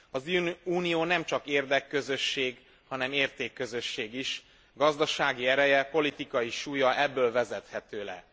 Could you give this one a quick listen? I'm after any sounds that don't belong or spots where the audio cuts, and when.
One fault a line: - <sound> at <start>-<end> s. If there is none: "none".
none